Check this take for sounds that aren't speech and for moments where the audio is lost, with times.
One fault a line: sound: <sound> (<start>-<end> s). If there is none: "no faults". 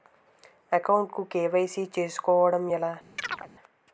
sound: chirp (3.2-3.5 s)